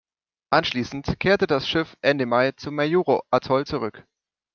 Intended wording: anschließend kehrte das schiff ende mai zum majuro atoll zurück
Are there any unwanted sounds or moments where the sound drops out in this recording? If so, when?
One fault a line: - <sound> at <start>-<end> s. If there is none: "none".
none